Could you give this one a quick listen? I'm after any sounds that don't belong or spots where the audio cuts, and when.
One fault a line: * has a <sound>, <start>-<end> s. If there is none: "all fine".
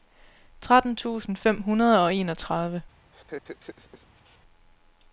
* has a laugh, 3.1-4.4 s